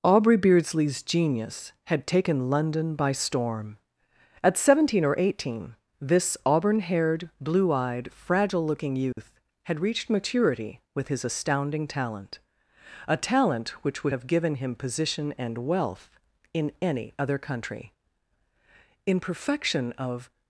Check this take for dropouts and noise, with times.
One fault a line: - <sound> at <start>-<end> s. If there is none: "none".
- dropout at 9.1-9.2 s